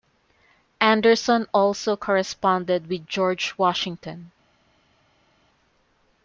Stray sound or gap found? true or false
false